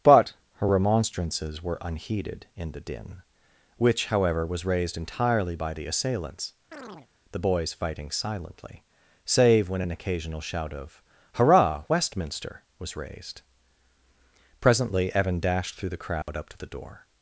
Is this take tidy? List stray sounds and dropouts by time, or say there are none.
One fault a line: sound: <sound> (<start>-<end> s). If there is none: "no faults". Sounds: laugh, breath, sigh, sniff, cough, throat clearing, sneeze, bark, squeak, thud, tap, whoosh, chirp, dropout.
sound: chirp (6.7-7.1 s)
sound: dropout (16.2-16.3 s)